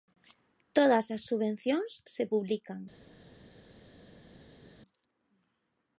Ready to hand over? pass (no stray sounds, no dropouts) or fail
pass